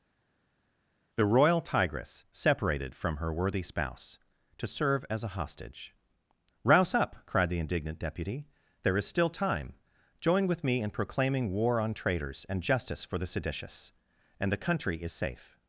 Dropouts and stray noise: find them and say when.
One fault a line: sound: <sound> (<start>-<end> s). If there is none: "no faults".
no faults